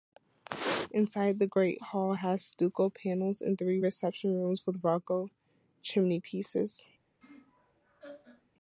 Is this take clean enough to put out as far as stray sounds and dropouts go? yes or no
no